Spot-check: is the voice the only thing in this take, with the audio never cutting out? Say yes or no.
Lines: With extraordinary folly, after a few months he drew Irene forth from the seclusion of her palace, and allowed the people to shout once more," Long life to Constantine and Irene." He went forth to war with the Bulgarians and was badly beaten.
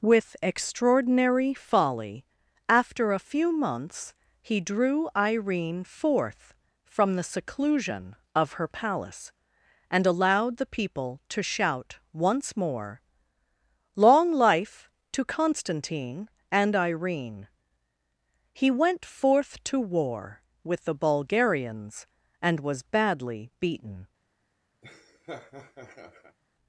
no